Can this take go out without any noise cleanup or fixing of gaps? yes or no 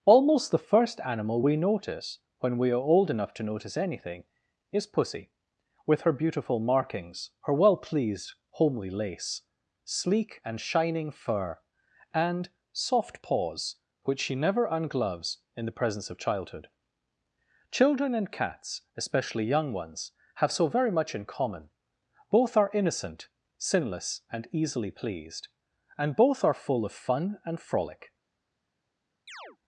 no